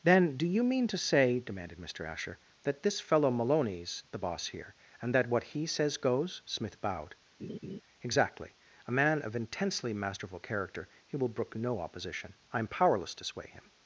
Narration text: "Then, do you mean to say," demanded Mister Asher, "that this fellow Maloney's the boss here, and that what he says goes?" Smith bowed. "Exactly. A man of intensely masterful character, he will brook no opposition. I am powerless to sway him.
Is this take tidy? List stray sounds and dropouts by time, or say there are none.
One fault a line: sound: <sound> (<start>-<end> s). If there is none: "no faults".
sound: laugh (7.4-7.8 s)